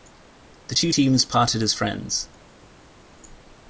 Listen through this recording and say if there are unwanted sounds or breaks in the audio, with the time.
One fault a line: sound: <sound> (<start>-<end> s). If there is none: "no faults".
no faults